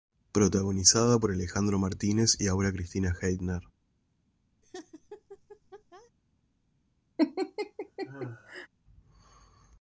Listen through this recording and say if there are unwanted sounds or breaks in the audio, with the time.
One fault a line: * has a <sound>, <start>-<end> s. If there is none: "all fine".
* has a laugh, 4.6-6.1 s
* has a laugh, 7.2-8.7 s